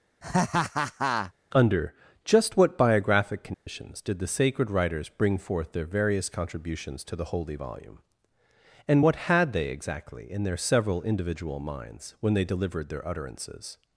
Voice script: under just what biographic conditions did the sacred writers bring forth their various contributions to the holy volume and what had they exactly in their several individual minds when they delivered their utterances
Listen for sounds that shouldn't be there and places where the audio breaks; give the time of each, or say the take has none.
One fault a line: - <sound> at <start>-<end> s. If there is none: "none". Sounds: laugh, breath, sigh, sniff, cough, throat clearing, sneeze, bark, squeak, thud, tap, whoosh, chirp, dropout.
- laugh at 0.2-1.3 s
- dropout at 3.5-3.7 s